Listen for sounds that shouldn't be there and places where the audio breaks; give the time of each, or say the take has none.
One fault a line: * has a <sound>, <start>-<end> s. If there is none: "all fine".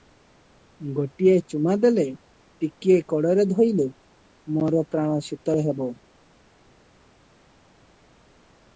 all fine